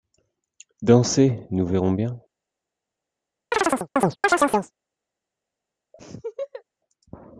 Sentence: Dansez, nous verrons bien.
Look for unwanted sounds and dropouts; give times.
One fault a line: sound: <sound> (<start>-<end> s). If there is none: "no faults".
sound: chirp (3.5-4.7 s)
sound: laugh (5.9-6.6 s)